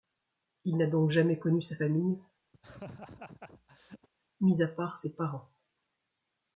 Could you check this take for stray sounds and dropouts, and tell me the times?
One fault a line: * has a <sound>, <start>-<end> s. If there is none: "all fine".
* has a laugh, 2.5-4.1 s